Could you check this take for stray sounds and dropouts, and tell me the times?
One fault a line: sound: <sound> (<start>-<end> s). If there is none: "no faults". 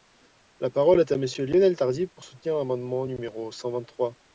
no faults